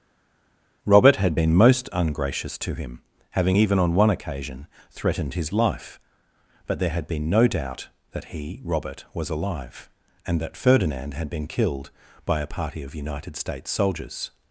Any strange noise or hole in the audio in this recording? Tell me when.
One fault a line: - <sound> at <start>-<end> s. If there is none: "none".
none